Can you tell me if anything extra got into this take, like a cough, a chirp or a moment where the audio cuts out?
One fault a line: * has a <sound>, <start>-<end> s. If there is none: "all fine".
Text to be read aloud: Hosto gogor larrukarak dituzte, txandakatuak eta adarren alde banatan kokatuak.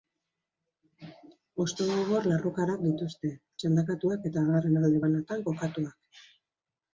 all fine